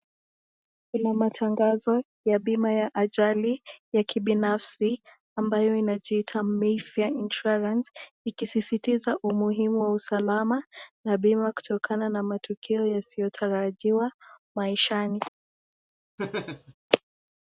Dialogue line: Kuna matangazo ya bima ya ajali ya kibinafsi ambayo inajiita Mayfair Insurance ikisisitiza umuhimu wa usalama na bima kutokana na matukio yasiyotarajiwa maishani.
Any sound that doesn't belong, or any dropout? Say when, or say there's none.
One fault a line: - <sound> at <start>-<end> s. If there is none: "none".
- laugh at 16.2-16.7 s